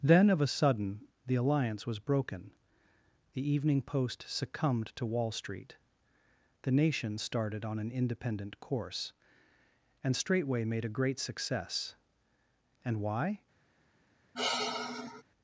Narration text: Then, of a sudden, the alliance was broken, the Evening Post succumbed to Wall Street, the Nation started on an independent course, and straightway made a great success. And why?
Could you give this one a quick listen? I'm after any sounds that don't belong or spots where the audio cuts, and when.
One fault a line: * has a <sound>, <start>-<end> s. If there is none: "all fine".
* has a sigh, 14.3-15.2 s